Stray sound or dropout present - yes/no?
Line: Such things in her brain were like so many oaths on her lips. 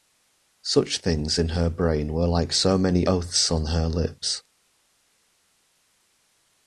no